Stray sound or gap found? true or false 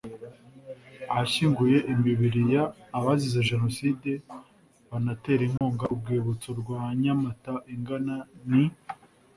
true